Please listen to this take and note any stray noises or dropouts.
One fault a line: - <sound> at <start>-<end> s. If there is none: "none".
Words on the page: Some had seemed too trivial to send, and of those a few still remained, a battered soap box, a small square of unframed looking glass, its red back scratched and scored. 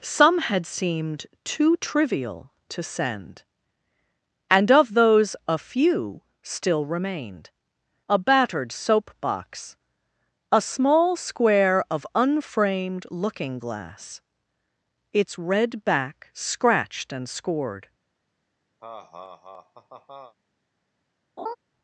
- laugh at 18.8-20.3 s
- laugh at 21.4-21.6 s